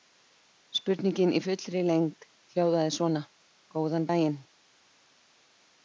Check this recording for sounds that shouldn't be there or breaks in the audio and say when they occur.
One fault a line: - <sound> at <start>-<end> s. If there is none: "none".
none